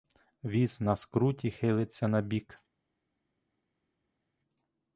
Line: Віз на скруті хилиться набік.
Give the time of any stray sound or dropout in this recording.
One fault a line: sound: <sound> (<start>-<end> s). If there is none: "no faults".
no faults